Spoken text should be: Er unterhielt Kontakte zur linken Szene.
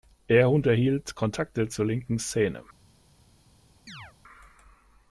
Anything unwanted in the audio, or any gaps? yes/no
yes